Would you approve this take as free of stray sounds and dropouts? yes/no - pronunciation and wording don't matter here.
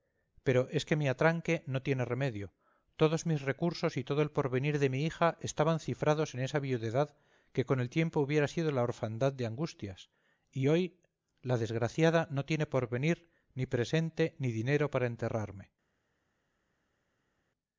yes